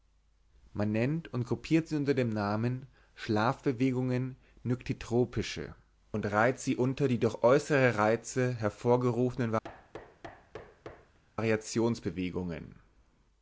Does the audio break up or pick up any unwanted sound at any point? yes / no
yes